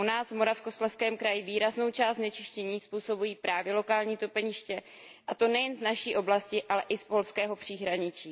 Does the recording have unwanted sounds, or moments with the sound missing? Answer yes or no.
no